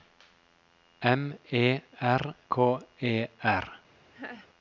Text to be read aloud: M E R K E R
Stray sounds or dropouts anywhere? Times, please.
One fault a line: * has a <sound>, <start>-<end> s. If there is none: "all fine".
* has a laugh, 4.1-4.5 s